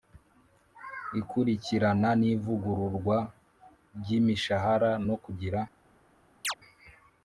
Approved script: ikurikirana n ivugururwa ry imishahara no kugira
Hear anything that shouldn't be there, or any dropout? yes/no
yes